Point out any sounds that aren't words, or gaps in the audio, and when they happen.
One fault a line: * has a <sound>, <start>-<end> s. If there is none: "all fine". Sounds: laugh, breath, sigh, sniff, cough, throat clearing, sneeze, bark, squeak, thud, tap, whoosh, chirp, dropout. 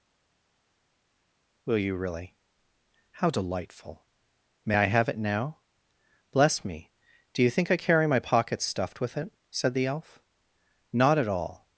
all fine